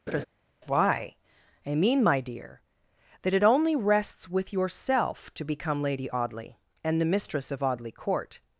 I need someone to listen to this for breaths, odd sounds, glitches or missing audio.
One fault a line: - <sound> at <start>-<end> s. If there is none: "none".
- laugh at 0.1-0.3 s